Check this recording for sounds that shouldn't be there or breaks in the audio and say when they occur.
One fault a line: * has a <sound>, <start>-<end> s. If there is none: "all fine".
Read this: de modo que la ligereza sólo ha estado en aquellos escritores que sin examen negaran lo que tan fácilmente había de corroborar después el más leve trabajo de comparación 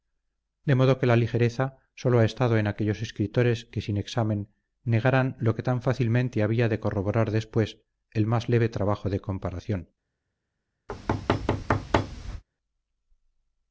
* has a thud, 10.9-12.4 s